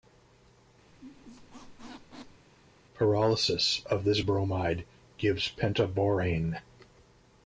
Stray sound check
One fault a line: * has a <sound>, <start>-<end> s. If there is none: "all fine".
* has a squeak, 0.9-2.5 s